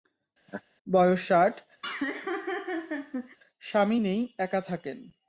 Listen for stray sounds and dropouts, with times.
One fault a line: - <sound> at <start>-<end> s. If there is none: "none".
- laugh at 0.5-0.6 s
- laugh at 1.8-3.4 s